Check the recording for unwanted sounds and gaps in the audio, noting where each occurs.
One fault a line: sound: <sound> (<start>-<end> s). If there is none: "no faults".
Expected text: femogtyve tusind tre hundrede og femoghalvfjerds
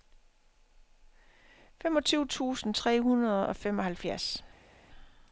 no faults